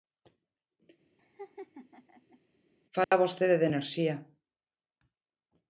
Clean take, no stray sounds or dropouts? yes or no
no